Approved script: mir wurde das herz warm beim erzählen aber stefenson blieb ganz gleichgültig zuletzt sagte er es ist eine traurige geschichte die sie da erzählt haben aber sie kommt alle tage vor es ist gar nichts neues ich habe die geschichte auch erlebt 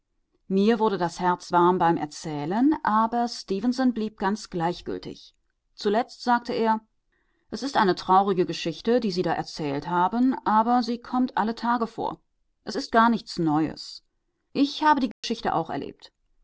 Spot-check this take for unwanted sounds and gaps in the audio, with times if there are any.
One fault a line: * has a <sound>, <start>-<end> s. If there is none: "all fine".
* has a dropout, 15.1-15.2 s